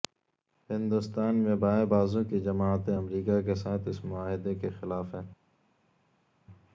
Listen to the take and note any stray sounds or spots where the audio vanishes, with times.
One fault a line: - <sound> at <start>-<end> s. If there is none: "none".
none